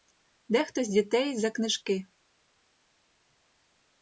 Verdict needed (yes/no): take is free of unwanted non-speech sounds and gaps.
yes